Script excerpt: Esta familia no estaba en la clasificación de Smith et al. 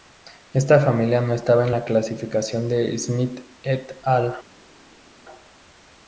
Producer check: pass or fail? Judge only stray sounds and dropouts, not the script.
pass